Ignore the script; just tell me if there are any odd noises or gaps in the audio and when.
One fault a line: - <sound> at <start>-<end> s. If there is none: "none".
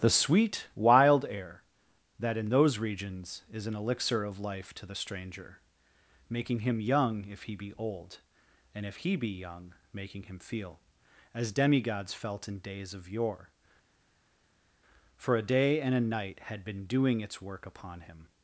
none